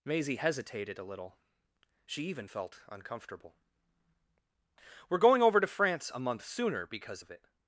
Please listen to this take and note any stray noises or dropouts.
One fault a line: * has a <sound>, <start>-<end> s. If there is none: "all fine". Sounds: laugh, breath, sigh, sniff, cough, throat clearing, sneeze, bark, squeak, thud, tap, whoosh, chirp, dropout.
all fine